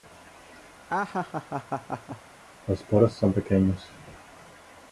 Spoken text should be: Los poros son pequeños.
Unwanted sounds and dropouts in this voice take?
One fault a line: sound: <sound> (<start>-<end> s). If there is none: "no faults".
sound: laugh (0.9-2.2 s)